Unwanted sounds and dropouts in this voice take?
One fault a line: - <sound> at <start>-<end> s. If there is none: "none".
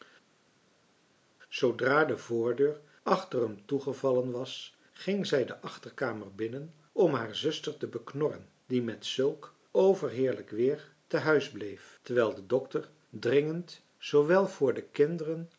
none